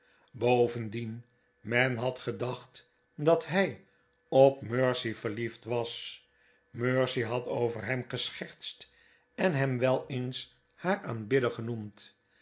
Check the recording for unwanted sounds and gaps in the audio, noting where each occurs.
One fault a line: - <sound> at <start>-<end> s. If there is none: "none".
none